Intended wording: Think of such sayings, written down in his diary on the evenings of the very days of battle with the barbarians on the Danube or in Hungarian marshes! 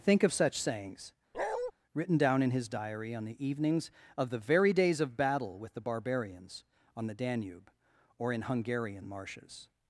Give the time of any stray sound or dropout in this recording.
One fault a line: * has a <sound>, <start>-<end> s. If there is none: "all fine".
* has a bark, 1.3-1.7 s